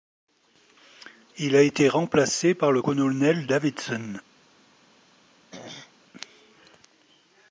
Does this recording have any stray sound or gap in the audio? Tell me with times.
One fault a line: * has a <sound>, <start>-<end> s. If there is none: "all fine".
* has a throat clearing, 5.5-5.9 s